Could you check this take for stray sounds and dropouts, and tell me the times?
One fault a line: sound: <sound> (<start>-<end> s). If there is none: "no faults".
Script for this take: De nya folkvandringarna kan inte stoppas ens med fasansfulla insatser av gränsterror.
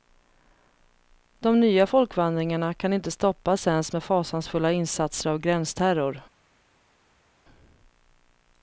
no faults